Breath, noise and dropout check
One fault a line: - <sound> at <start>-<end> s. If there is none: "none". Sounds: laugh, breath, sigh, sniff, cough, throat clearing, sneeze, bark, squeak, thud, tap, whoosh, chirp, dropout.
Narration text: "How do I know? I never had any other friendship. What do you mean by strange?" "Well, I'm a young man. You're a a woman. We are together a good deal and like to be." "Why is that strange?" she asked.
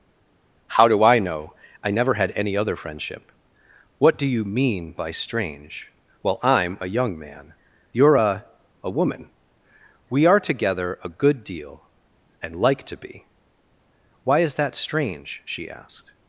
none